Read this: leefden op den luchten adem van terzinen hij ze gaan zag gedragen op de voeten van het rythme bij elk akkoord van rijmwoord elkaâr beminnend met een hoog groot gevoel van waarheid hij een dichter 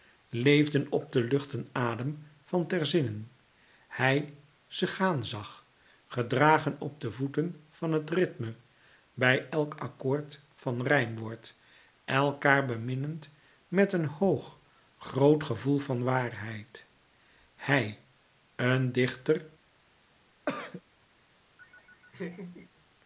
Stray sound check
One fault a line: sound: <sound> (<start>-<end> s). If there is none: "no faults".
sound: throat clearing (20.5-20.8 s)
sound: laugh (21.6-22.7 s)